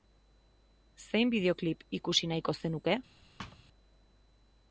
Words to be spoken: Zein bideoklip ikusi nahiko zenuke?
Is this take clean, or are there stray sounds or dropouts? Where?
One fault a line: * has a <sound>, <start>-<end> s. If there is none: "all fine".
* has a thud, 3.4-3.6 s